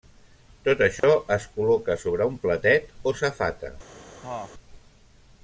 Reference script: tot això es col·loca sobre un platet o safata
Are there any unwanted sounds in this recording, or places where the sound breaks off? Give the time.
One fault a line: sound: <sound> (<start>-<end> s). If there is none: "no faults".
sound: dropout (1.0-1.0 s)
sound: cough (4.2-4.5 s)